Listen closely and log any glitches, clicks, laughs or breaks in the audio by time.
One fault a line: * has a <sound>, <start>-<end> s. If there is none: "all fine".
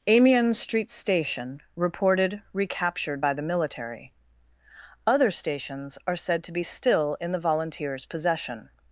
all fine